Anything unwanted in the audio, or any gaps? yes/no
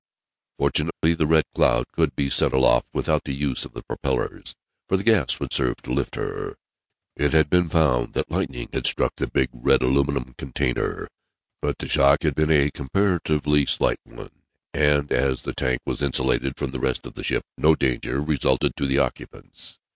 yes